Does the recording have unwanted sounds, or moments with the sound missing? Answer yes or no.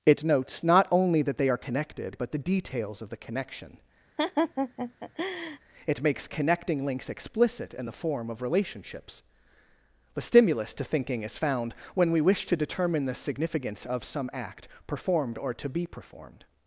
yes